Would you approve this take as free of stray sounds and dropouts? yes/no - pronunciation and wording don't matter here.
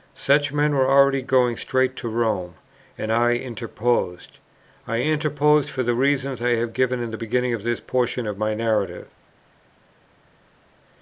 yes